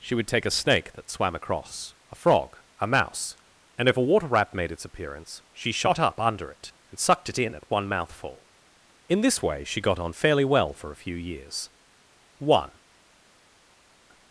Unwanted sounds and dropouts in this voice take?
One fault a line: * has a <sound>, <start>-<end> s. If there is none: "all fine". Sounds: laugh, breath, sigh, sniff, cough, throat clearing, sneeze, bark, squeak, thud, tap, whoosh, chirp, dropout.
all fine